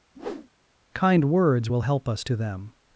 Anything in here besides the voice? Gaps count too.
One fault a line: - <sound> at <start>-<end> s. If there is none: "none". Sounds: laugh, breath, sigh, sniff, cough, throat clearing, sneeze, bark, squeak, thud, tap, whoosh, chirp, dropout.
- whoosh at 0.1-0.5 s